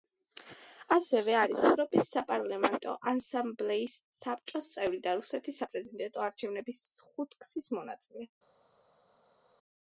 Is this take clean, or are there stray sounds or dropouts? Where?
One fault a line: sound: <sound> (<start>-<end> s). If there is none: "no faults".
no faults